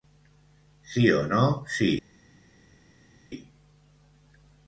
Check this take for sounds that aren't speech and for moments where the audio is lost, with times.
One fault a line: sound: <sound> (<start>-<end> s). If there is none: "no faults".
no faults